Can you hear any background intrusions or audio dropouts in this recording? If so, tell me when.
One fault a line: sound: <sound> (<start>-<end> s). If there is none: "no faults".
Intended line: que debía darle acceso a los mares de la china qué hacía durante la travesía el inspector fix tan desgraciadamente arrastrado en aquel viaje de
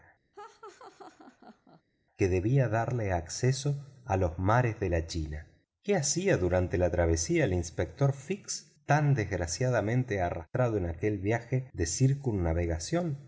sound: laugh (0.3-1.8 s)